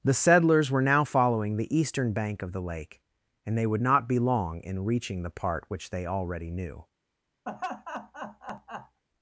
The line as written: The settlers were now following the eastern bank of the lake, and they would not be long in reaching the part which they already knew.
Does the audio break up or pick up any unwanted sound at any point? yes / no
yes